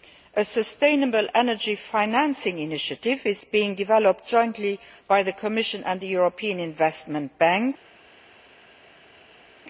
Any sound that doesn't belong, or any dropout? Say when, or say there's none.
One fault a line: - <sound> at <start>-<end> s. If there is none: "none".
none